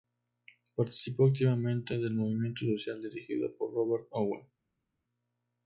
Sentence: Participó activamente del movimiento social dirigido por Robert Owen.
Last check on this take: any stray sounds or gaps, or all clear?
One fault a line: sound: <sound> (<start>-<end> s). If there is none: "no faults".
no faults